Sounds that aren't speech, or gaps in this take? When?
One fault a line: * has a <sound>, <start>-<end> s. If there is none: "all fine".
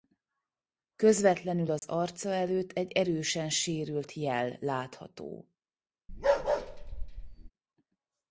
* has a dropout, 1.8-1.8 s
* has a bark, 6.1-7.5 s